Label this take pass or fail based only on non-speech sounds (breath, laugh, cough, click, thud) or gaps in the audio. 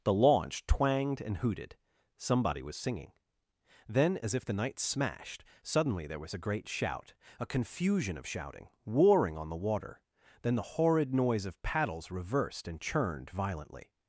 pass